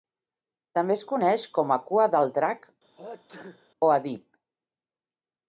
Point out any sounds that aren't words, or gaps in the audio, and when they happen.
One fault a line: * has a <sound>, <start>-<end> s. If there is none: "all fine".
* has a sneeze, 3.0-3.7 s